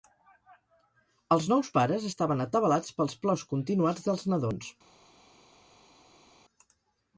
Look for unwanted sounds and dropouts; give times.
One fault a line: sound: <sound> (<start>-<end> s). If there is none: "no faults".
no faults